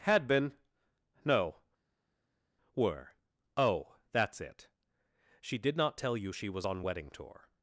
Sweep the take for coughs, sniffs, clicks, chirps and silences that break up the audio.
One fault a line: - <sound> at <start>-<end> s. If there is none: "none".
none